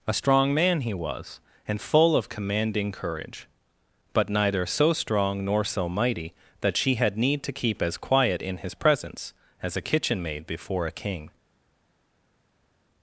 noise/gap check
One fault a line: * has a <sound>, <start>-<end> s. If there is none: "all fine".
all fine